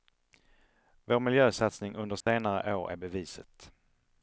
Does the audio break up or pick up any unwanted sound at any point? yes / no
yes